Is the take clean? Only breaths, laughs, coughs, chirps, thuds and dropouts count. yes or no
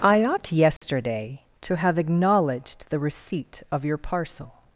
no